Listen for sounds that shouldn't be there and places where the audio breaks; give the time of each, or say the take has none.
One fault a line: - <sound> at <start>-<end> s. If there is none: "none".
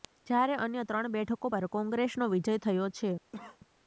- cough at 3.3-3.6 s